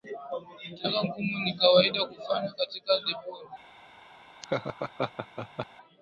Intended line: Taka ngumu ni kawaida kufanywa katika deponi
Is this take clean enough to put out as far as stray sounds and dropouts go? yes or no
no